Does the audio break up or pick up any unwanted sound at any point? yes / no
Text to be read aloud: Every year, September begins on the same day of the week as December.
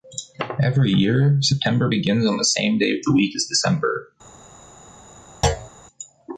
yes